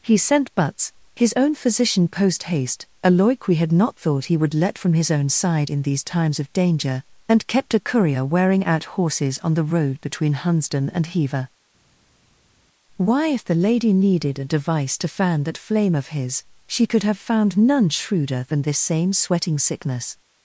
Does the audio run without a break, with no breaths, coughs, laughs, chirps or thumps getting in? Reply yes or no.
yes